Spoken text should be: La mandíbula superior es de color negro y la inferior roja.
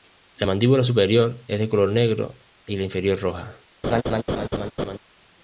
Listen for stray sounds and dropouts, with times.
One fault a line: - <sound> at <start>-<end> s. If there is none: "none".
- laugh at 3.8-5.0 s